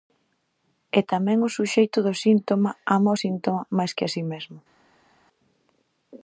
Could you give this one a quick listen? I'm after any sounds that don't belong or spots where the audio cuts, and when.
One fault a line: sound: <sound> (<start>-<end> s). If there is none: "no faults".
no faults